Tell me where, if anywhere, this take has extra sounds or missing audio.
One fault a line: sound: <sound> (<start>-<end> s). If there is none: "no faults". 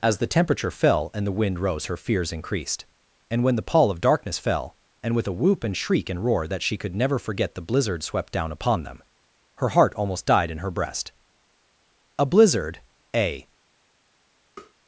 sound: tap (14.6-14.7 s)